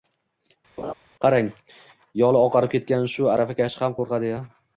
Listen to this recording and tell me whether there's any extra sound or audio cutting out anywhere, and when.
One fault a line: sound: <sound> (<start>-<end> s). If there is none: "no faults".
sound: laugh (0.8-0.9 s)